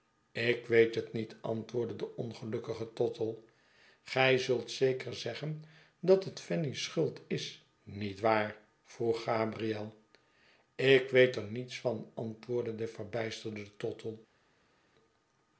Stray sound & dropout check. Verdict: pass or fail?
pass